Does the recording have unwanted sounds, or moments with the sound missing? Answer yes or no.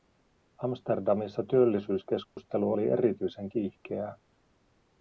yes